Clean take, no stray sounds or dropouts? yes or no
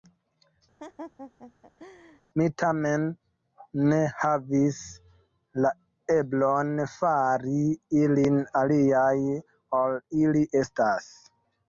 no